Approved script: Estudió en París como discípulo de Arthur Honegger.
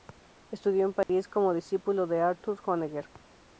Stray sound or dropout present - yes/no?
yes